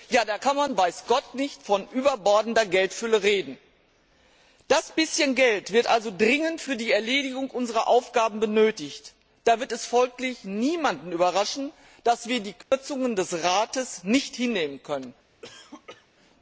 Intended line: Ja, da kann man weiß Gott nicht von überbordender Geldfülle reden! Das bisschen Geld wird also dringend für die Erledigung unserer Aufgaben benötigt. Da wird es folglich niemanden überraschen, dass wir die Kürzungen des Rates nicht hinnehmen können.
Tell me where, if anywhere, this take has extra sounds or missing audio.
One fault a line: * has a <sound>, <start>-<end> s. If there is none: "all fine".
* has a dropout, 12.6-12.7 s
* has a cough, 15.4-16.1 s